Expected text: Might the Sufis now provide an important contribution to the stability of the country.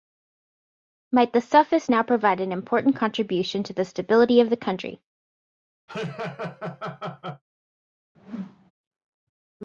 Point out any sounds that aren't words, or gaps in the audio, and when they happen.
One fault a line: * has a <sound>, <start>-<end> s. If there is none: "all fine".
* has a laugh, 5.9-7.4 s
* has a whoosh, 8.1-8.7 s